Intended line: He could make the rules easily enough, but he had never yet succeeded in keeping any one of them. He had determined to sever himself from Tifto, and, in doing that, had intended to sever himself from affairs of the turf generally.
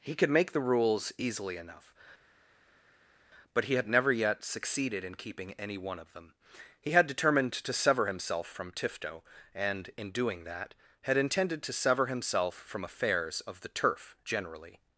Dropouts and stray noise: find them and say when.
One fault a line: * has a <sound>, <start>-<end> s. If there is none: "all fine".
all fine